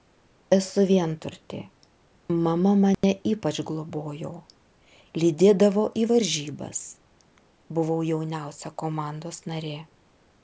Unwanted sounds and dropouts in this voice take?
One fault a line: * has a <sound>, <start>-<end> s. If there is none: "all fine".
* has a dropout, 2.9-3.0 s